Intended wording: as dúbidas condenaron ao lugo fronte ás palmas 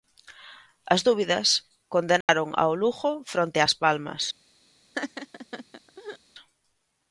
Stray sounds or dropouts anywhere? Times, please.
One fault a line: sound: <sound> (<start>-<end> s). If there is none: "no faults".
sound: dropout (2.2-2.3 s)
sound: laugh (4.9-6.2 s)